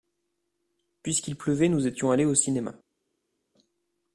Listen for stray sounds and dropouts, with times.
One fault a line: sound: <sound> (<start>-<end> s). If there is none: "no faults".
no faults